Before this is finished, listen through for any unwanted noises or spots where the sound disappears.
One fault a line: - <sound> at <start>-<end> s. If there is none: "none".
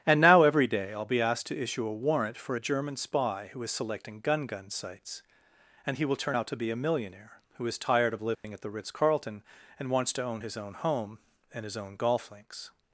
- dropout at 8.3-8.4 s